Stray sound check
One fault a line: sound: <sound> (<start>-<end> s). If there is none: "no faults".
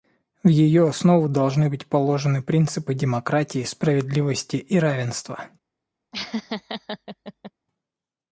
sound: laugh (6.1-7.5 s)